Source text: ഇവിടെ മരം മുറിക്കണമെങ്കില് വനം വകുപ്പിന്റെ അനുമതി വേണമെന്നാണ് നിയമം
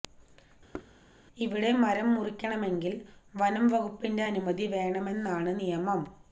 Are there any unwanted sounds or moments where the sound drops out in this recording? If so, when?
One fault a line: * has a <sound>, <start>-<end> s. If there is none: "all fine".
* has a thud, 0.7-0.9 s